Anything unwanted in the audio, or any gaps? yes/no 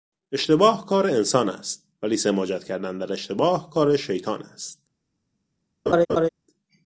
yes